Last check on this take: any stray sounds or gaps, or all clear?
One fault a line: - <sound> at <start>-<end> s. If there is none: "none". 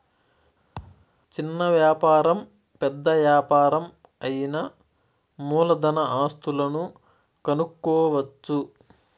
- thud at 0.8-1.1 s